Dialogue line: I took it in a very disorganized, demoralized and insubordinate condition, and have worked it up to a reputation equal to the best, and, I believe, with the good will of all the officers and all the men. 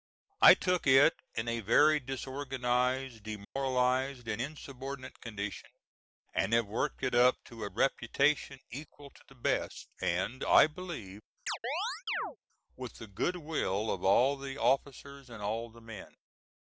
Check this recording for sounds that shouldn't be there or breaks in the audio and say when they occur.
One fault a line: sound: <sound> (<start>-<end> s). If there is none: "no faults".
sound: dropout (3.4-3.6 s)
sound: chirp (11.5-12.4 s)